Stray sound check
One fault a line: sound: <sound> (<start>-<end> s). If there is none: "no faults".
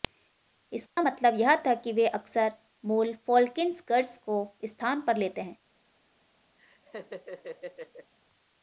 sound: dropout (0.9-1.0 s)
sound: laugh (6.6-8.1 s)